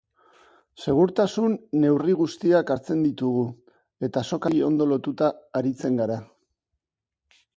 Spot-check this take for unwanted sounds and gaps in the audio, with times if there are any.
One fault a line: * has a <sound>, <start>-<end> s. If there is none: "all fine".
all fine